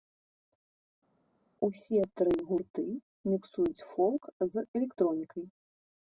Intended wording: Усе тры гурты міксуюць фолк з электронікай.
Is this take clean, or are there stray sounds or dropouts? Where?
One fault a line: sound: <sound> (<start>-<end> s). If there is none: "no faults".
no faults